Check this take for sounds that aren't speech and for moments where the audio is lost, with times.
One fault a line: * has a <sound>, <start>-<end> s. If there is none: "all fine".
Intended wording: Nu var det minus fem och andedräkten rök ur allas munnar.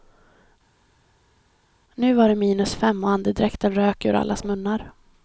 all fine